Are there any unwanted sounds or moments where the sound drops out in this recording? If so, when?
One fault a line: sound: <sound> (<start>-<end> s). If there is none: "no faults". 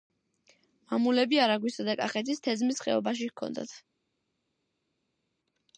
no faults